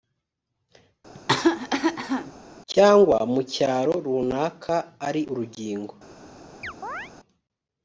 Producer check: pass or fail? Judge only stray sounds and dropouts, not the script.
fail